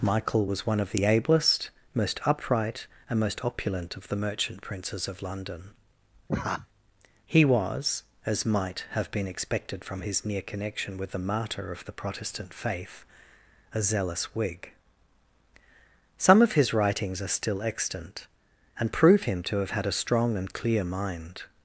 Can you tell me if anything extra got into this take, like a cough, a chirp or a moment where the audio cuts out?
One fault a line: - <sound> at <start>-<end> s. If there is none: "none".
- laugh at 6.3-6.7 s